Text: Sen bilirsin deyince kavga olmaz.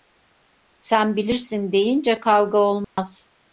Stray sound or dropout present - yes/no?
yes